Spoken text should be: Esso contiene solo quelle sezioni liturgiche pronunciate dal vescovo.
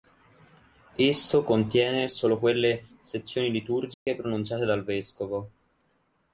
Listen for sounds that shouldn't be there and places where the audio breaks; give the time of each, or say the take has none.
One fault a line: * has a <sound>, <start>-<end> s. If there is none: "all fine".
* has a dropout, 3.9-4.1 s